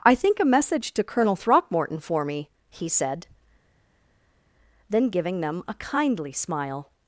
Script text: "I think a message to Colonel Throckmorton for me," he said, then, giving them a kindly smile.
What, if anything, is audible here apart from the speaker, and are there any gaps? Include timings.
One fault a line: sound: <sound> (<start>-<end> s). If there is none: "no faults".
no faults